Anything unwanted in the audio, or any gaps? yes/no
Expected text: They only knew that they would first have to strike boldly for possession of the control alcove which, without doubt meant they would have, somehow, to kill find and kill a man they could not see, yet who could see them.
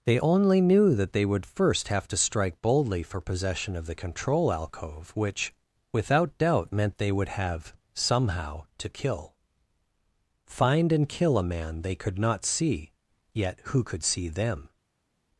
no